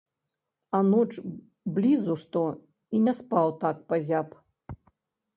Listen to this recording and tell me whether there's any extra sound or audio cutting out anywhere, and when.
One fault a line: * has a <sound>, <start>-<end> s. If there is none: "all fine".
all fine